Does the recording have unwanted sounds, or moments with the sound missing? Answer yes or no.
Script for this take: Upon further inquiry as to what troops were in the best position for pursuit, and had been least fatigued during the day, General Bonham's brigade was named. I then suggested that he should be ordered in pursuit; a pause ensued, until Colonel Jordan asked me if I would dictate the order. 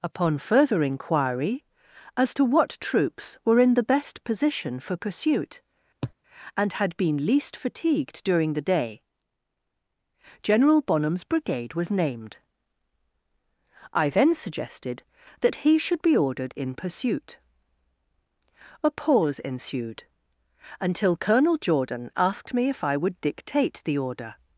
yes